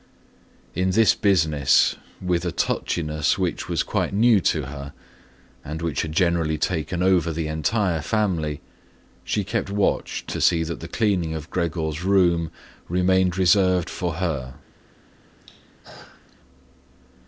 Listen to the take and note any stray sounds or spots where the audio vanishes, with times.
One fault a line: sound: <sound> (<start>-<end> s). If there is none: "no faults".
sound: throat clearing (15.4-16.4 s)